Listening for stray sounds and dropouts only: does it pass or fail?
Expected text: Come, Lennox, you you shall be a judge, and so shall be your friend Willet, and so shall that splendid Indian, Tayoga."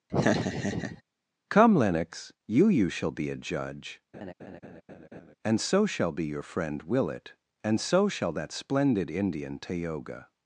fail